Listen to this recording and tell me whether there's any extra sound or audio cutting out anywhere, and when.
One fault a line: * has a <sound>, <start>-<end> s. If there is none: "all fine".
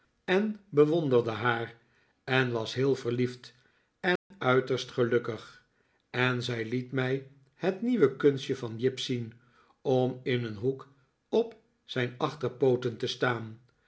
* has a dropout, 4.2-4.3 s